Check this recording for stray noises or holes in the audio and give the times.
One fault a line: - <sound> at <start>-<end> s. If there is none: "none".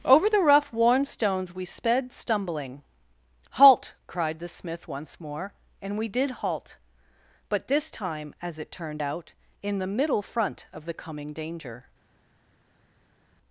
none